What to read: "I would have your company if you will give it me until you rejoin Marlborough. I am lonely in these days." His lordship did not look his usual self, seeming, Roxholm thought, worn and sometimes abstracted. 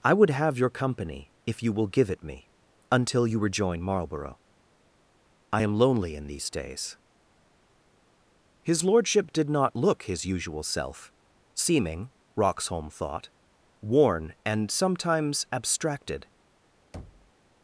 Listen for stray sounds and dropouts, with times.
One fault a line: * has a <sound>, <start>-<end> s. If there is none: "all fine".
* has a thud, 16.9-17.3 s